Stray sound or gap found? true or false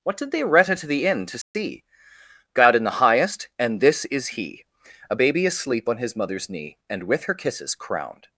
true